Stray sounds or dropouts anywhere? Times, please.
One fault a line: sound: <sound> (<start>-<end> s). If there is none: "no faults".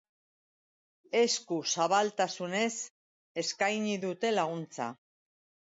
no faults